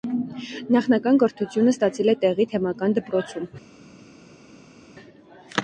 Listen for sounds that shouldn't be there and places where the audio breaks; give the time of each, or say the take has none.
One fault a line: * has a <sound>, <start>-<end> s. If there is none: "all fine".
all fine